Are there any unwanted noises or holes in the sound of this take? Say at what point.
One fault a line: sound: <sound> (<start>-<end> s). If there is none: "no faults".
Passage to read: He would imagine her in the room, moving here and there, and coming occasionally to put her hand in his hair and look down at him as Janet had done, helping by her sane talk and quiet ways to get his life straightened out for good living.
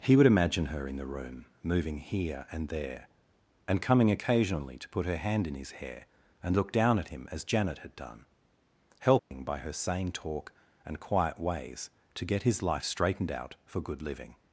sound: dropout (9.2-9.3 s)